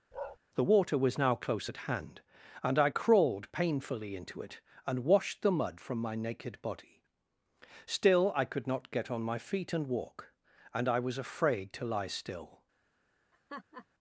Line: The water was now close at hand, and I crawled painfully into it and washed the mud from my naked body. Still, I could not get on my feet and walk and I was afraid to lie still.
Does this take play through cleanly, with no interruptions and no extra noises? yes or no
no